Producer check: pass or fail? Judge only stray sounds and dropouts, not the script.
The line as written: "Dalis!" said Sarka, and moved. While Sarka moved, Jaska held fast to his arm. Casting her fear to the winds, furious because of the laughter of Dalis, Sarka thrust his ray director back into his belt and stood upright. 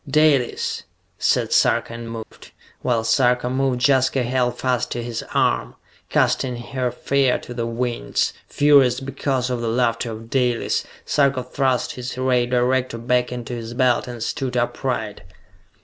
fail